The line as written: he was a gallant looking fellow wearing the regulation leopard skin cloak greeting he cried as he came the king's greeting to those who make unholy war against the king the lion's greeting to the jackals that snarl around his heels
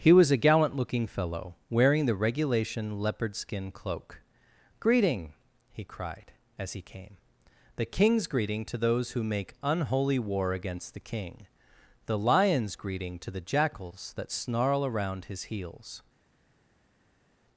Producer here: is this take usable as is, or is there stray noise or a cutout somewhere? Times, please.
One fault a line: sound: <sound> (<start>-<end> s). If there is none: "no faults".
no faults